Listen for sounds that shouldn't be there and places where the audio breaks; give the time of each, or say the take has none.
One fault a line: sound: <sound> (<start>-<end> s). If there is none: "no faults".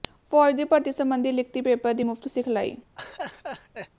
sound: laugh (3.0-3.9 s)